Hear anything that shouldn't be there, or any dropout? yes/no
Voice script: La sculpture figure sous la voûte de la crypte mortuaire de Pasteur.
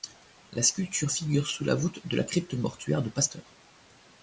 no